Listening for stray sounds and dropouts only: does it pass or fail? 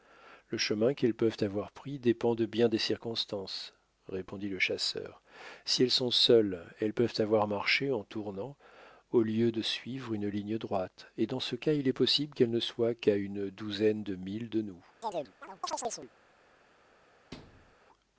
fail